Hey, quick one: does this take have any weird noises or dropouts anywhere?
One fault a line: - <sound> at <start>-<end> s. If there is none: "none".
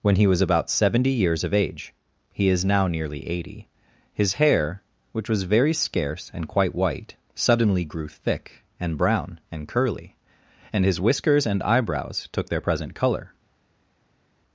none